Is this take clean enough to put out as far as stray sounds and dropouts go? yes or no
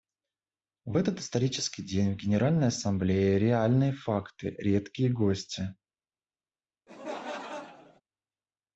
no